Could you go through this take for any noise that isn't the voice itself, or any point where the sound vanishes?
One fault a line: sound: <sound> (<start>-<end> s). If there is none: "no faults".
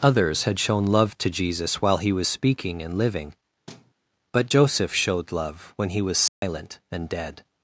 sound: thud (3.7-3.9 s)
sound: dropout (6.3-6.4 s)